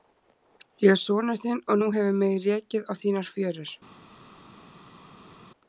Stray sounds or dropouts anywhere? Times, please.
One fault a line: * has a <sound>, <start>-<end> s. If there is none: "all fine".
all fine